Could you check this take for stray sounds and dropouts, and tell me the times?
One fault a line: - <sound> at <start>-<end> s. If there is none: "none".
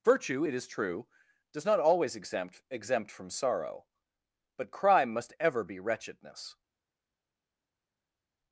none